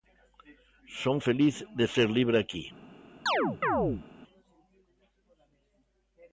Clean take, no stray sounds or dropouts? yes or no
no